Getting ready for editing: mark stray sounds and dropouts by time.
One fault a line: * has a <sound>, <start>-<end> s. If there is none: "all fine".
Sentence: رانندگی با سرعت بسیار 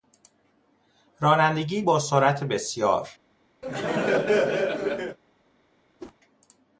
* has a laugh, 3.6-5.2 s
* has a whoosh, 6.0-6.2 s